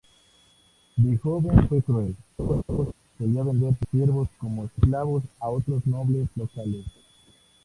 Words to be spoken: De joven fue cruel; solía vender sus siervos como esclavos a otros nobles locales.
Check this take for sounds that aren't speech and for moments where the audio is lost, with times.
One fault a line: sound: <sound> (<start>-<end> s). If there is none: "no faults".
sound: laugh (2.4-2.9 s)